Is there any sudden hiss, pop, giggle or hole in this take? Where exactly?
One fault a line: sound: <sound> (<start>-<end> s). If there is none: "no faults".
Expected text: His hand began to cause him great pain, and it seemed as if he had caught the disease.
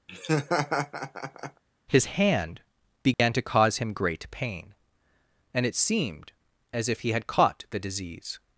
sound: laugh (0.1-1.6 s)
sound: dropout (3.1-3.2 s)